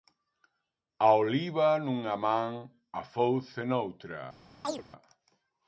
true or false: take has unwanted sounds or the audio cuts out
true